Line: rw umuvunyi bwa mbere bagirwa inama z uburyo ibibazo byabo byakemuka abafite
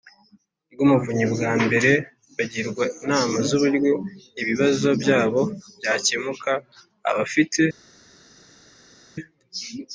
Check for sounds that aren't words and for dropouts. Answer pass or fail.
pass